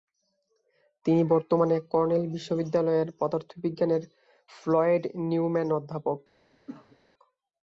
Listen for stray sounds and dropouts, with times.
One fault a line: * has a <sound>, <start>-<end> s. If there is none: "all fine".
* has a cough, 6.5-7.0 s